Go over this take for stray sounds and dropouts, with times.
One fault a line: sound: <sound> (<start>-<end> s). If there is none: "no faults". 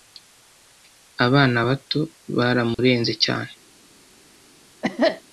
sound: dropout (2.7-2.8 s)
sound: cough (4.8-5.2 s)